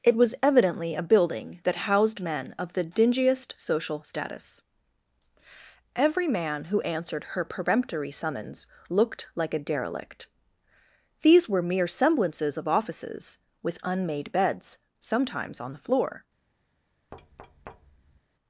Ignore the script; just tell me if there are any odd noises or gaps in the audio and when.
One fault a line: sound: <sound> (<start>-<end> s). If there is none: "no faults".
sound: thud (17.1-18.2 s)